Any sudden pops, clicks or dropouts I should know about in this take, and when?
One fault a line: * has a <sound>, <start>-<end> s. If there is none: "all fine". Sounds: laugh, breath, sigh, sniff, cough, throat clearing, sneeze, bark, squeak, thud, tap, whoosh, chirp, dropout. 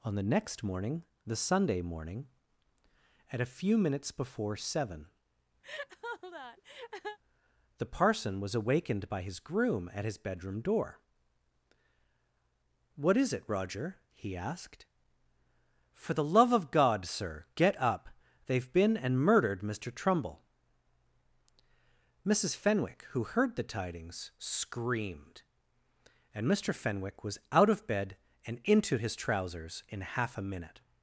* has a laugh, 5.6-7.2 s